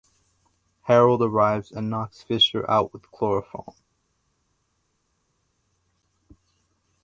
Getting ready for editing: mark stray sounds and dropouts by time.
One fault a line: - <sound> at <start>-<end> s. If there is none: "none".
none